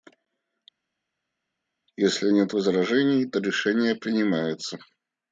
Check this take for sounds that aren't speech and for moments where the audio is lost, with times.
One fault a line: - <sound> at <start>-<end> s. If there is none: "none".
none